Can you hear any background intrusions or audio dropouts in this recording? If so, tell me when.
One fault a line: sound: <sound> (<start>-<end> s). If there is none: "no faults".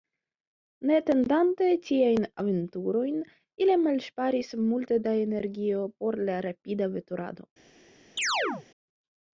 sound: chirp (8.2-8.7 s)